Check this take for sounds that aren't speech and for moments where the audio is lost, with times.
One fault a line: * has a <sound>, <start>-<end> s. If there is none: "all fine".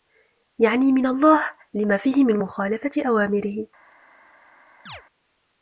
* has a chirp, 4.9-5.0 s